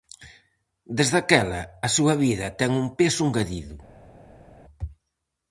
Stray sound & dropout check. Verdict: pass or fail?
pass